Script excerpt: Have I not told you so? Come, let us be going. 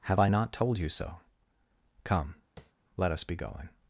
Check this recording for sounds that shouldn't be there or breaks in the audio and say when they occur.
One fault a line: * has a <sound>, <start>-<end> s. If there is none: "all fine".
* has a tap, 2.6-2.7 s